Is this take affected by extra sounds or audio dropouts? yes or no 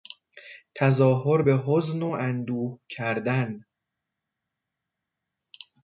no